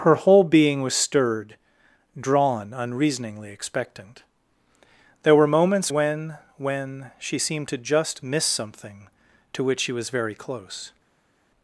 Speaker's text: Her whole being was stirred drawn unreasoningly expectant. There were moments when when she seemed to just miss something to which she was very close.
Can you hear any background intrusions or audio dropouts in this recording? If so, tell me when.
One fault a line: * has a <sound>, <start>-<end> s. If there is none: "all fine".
all fine